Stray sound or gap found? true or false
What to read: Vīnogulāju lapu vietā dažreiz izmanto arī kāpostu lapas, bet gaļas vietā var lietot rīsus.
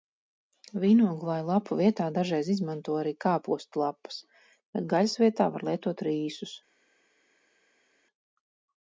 false